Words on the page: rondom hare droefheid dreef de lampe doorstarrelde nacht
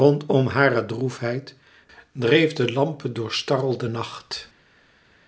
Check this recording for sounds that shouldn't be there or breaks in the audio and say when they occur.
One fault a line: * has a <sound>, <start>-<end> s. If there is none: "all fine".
all fine